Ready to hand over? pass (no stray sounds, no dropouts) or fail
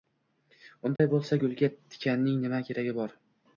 fail